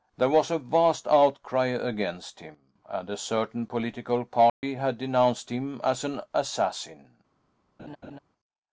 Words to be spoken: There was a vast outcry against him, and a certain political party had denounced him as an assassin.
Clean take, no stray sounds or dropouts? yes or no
no